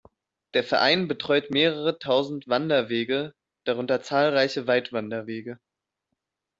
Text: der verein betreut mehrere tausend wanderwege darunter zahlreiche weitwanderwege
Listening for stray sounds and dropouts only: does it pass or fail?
pass